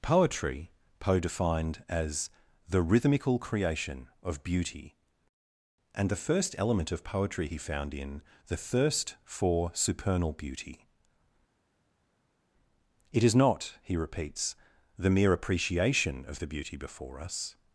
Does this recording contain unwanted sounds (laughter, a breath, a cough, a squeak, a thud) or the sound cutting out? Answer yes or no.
no